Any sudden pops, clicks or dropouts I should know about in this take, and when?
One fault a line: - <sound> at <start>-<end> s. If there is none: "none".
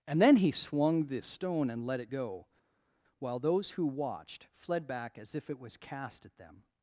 none